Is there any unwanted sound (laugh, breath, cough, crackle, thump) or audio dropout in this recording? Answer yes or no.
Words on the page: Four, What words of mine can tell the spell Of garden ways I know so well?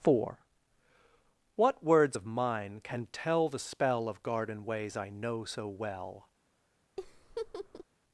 yes